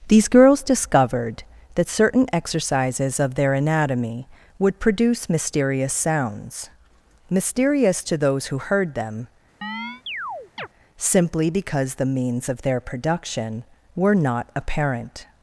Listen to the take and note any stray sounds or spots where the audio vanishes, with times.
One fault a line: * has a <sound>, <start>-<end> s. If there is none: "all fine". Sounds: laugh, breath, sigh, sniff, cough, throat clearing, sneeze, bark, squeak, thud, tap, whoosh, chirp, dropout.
* has a chirp, 9.6-10.7 s